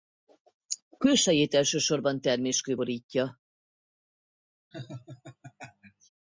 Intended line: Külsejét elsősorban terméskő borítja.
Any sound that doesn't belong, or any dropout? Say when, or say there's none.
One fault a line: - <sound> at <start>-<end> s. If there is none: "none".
- laugh at 4.7-6.1 s